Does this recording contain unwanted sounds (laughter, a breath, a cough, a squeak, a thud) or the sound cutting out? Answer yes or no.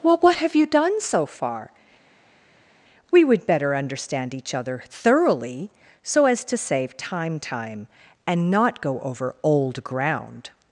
no